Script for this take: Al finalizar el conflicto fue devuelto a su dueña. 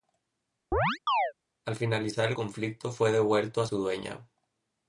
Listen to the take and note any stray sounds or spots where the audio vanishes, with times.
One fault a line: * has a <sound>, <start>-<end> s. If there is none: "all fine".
* has a chirp, 0.7-1.3 s